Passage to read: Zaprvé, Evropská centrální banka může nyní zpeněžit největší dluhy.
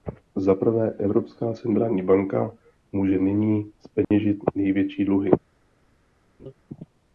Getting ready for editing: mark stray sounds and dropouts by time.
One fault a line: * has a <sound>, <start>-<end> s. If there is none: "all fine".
* has a dropout, 4.0-4.1 s
* has a laugh, 6.4-6.5 s